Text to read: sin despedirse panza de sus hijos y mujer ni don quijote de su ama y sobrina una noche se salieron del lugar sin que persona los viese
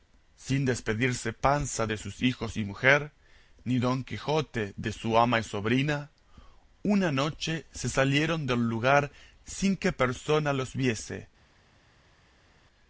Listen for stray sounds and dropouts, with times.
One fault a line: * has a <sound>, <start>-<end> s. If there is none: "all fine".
all fine